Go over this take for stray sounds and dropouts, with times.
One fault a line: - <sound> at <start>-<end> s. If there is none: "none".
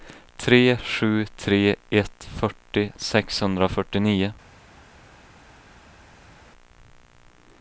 none